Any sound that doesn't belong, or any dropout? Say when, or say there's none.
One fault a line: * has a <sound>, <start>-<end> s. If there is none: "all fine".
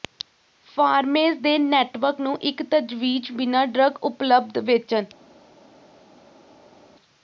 all fine